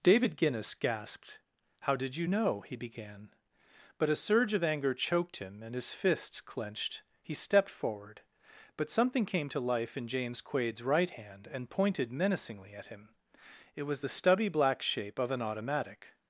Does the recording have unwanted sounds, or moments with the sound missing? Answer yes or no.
no